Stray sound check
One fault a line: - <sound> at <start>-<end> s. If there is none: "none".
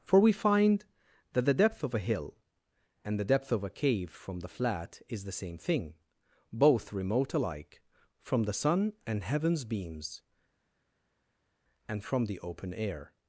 none